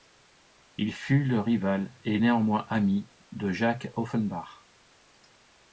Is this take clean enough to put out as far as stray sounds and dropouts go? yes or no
yes